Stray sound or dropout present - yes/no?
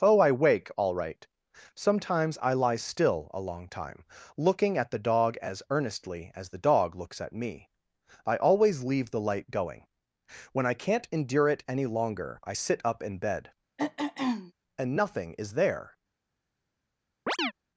yes